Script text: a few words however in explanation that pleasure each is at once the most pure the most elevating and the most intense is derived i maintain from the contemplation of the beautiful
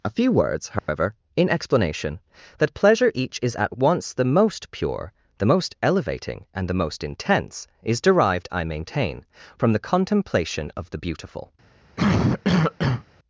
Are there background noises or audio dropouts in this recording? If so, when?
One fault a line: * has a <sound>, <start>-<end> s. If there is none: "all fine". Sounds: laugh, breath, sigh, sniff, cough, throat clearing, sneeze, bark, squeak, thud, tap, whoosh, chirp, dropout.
* has a dropout, 0.8-0.9 s
* has a cough, 12.0-13.0 s